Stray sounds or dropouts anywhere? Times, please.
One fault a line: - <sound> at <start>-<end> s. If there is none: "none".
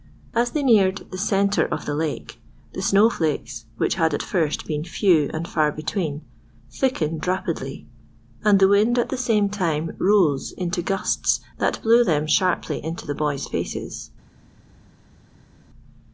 none